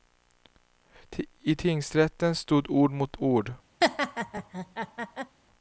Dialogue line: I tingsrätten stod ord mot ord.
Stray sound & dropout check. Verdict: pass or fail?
fail